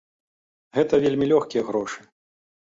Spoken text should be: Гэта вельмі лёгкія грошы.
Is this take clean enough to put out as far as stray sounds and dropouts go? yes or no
yes